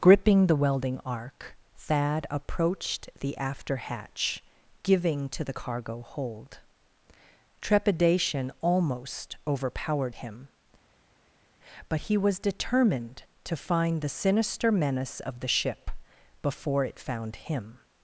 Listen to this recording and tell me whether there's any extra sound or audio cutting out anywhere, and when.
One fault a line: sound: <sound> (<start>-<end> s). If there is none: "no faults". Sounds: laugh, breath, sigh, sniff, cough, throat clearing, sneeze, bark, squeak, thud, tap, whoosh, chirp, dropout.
no faults